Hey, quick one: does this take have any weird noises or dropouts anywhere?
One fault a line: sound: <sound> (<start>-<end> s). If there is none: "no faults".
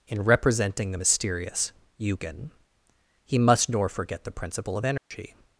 sound: dropout (5.0-5.1 s)